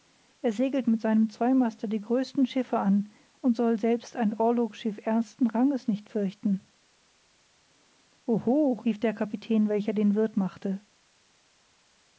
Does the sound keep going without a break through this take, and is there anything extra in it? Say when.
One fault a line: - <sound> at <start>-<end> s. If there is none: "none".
none